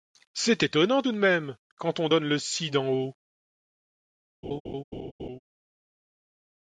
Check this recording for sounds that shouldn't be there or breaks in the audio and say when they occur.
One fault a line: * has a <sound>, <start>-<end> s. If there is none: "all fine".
* has a laugh, 4.4-5.4 s